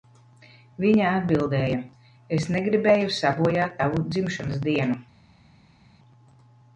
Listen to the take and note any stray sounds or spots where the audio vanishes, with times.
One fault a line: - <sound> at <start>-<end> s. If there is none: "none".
none